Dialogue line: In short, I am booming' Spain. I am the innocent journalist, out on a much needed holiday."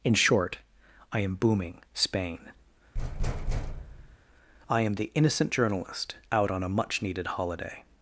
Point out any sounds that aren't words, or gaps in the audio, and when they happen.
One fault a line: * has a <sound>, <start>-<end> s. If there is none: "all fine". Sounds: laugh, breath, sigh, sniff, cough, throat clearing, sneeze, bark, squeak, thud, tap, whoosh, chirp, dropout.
* has a thud, 2.9-4.2 s